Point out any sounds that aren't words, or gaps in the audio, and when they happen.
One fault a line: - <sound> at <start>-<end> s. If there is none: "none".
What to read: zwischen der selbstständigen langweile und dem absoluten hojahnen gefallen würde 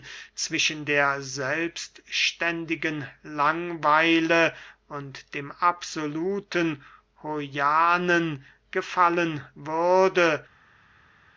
none